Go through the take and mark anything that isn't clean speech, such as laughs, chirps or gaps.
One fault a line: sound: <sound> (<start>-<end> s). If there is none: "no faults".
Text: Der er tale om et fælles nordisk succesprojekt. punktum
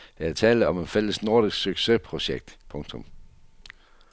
no faults